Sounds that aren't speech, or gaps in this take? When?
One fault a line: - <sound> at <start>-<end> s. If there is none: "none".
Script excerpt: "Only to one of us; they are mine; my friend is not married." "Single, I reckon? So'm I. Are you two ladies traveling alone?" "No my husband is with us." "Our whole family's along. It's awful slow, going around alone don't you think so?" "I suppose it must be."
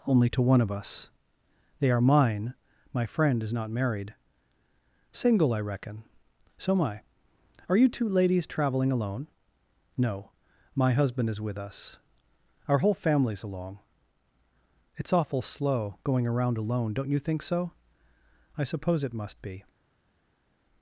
none